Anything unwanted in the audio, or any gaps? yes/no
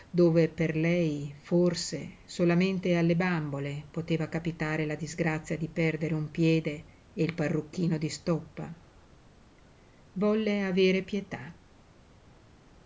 no